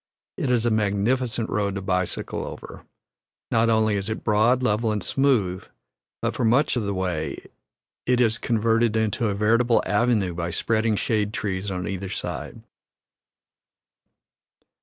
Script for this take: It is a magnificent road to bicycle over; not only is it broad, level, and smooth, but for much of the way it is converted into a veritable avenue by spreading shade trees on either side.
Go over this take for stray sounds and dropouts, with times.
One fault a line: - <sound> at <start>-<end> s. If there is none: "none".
none